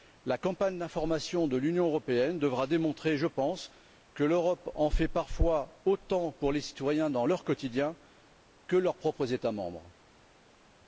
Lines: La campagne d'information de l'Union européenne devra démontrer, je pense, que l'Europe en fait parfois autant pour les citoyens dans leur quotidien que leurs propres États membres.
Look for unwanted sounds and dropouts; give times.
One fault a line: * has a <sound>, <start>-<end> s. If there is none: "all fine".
all fine